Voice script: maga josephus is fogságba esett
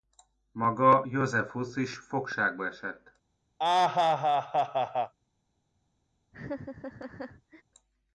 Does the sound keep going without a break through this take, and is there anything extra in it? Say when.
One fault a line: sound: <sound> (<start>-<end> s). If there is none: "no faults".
sound: laugh (3.6-5.1 s)
sound: laugh (6.3-7.6 s)